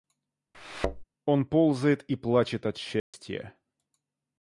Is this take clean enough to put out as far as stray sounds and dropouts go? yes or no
no